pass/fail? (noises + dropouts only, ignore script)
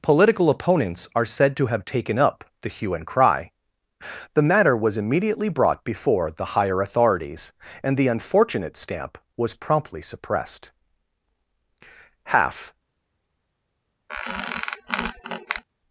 fail